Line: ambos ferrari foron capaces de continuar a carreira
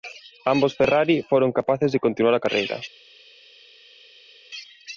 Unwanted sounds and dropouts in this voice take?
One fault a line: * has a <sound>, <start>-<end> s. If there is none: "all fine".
all fine